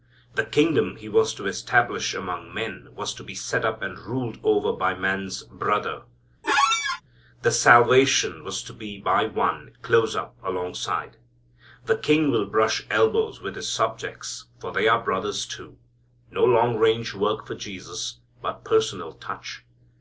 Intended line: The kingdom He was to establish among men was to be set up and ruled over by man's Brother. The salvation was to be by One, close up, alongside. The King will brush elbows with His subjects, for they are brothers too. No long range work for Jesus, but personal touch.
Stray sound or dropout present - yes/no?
yes